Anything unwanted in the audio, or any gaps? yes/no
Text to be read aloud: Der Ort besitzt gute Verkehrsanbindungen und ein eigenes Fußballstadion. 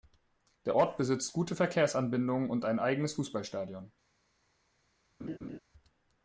yes